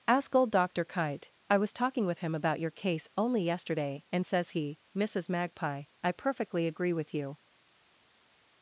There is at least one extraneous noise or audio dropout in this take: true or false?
false